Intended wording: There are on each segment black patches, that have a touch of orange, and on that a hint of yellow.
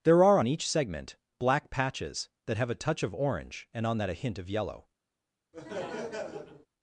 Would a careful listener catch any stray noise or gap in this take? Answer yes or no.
yes